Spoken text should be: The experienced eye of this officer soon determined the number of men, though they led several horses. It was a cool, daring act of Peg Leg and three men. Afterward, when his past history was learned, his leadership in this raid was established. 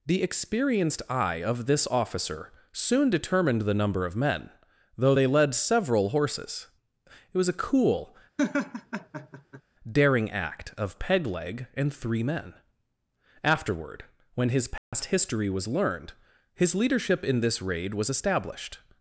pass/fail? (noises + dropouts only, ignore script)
fail